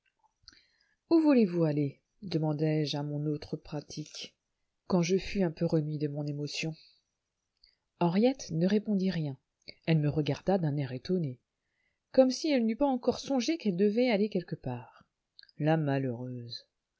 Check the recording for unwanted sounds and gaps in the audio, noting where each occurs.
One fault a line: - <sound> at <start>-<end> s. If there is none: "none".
none